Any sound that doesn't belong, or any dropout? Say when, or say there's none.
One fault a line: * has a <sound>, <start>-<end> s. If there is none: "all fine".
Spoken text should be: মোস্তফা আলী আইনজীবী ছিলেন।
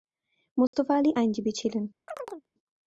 * has a dropout, 0.7-0.7 s
* has a chirp, 2.1-2.5 s